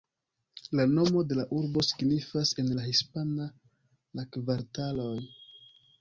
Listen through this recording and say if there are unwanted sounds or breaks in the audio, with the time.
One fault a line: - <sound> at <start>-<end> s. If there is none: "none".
none